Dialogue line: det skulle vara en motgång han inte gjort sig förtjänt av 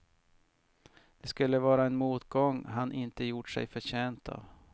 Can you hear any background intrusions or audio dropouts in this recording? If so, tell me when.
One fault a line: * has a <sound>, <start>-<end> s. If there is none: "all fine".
all fine